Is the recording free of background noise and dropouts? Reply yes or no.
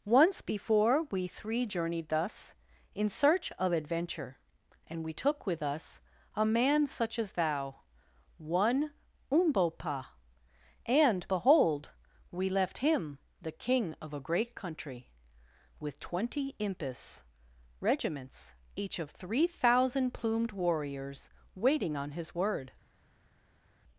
yes